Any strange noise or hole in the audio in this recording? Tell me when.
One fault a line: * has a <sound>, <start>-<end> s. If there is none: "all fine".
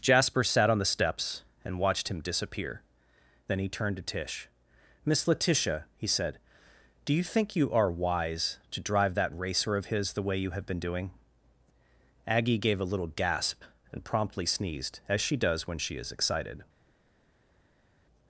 all fine